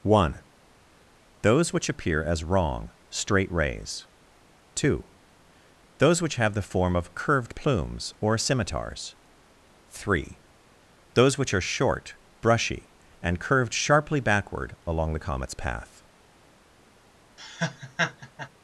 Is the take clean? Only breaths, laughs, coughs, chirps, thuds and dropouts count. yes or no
no